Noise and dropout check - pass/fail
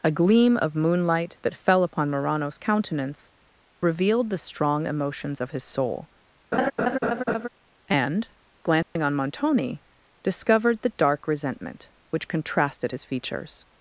fail